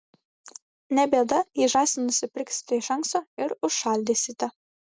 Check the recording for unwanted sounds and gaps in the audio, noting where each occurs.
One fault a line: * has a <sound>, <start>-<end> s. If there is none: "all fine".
all fine